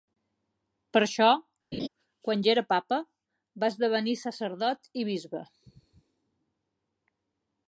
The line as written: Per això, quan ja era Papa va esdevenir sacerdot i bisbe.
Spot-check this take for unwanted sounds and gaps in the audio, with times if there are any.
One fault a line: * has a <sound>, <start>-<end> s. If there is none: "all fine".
* has a laugh, 1.7-1.9 s